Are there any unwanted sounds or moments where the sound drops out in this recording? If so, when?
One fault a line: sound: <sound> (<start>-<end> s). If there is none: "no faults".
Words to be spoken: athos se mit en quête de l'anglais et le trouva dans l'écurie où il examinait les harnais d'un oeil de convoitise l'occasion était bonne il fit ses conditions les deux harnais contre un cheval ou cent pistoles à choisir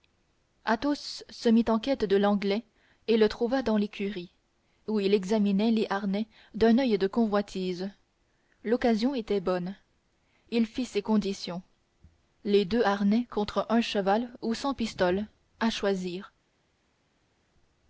no faults